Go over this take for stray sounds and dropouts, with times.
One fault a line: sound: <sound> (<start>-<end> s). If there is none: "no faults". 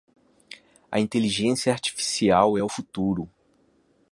no faults